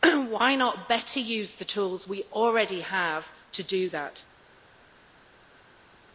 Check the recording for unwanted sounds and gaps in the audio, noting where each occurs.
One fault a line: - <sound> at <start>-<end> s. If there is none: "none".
none